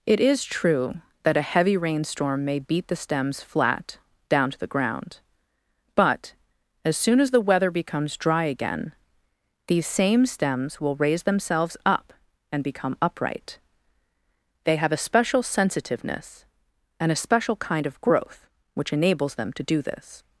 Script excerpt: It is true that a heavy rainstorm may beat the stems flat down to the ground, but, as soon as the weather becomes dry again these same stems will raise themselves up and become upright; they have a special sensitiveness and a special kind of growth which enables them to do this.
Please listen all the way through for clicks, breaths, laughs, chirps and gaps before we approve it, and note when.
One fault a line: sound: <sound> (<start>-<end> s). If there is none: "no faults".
no faults